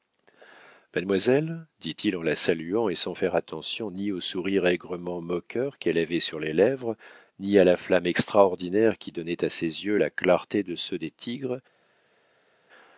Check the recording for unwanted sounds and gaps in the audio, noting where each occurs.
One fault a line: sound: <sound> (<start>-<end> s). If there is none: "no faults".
no faults